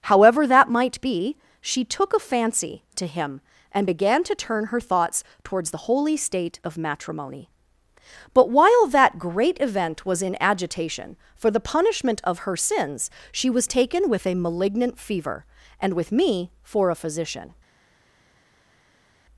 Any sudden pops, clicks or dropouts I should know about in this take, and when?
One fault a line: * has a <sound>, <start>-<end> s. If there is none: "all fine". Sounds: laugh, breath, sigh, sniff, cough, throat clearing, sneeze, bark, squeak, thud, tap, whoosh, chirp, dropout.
all fine